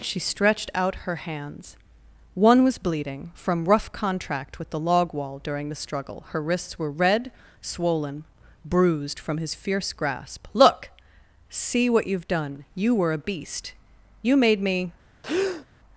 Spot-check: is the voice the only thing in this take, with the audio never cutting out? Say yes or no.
no